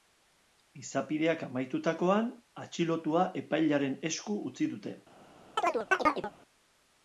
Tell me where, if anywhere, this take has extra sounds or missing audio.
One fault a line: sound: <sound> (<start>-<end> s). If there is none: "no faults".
sound: chirp (5.6-6.3 s)